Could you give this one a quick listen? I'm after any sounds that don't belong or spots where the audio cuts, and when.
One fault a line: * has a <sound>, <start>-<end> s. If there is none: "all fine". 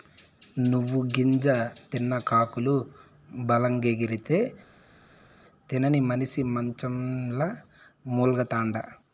all fine